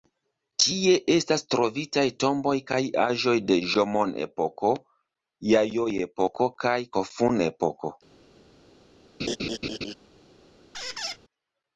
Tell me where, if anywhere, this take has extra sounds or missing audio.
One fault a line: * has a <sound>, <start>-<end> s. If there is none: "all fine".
* has a laugh, 9.2-9.9 s
* has a squeak, 10.7-11.2 s